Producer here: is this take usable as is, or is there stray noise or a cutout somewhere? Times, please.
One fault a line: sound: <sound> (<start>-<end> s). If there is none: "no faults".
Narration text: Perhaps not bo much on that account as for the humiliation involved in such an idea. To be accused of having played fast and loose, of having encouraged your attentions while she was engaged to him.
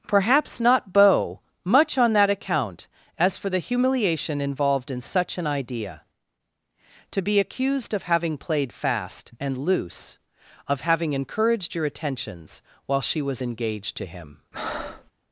sound: breath (14.5-15.1 s)